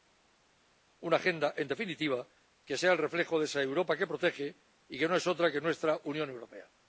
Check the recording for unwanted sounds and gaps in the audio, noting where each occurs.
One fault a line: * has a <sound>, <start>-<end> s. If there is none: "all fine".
all fine